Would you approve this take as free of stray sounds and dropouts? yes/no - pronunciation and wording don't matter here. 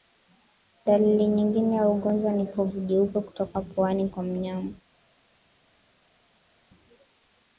yes